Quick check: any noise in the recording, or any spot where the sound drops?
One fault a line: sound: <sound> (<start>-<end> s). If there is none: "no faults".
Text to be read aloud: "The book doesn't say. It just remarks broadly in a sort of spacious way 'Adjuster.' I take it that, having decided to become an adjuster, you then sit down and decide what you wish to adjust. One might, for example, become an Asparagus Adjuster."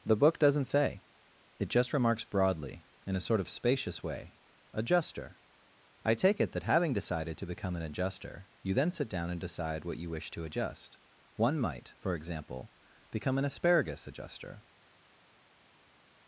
no faults